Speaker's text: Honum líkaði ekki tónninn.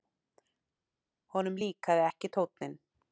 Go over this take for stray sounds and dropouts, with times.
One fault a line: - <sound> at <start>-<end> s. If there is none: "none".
none